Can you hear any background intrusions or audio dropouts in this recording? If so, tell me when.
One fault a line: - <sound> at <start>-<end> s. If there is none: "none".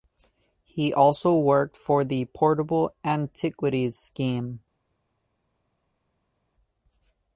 none